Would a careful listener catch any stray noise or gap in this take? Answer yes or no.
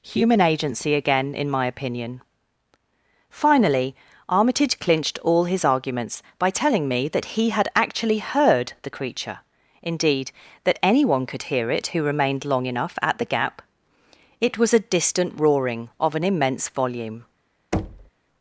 yes